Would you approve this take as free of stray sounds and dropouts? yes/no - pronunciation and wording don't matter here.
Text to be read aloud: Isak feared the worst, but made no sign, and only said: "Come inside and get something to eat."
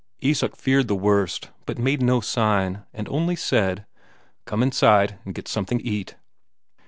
yes